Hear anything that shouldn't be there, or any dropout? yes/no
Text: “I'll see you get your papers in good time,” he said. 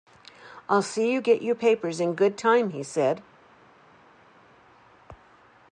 no